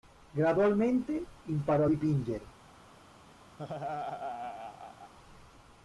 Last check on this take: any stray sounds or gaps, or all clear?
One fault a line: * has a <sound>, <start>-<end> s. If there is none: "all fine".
* has a laugh, 3.6-5.1 s